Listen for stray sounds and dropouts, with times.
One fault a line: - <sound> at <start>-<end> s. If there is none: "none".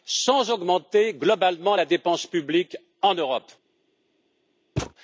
- thud at 4.8-4.9 s